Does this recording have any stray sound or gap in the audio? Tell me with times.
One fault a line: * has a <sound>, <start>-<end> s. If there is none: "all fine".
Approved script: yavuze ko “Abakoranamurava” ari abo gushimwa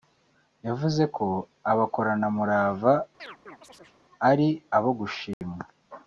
* has a chirp, 3.2-4.0 s
* has a dropout, 5.3-5.4 s